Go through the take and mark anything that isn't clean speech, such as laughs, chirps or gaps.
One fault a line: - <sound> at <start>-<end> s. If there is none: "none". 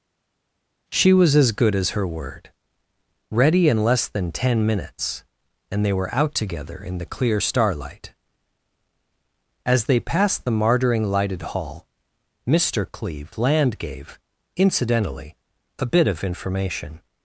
none